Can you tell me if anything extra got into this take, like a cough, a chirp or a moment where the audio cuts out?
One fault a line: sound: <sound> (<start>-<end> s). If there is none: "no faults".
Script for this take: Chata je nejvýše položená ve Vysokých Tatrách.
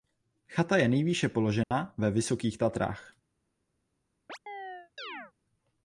sound: dropout (1.6-1.7 s)
sound: chirp (4.3-5.3 s)